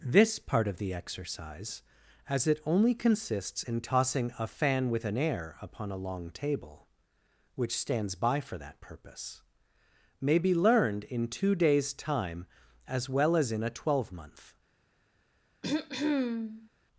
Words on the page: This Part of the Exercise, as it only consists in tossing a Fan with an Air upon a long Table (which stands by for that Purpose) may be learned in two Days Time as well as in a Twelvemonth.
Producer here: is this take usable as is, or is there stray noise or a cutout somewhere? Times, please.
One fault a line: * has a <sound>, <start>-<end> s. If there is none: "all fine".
* has a throat clearing, 15.6-16.7 s